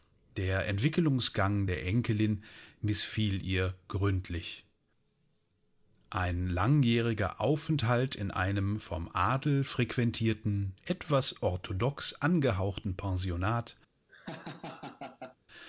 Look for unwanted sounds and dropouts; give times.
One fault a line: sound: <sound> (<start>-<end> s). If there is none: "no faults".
sound: laugh (14.1-15.4 s)